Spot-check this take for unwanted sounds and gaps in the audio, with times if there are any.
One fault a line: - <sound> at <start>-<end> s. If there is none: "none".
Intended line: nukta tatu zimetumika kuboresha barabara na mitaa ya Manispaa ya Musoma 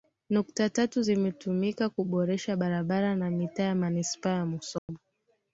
- dropout at 4.8-4.9 s